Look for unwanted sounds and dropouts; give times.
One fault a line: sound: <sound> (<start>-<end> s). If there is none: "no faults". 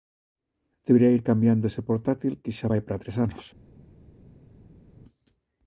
no faults